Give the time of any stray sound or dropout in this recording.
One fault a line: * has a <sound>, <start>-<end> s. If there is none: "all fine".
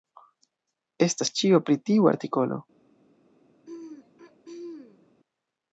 * has a throat clearing, 3.7-5.1 s